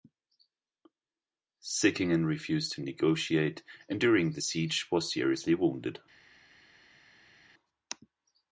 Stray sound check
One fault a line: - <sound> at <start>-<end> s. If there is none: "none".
none